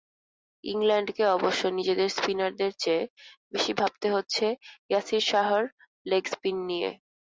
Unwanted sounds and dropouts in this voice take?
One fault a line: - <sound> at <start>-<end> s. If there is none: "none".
none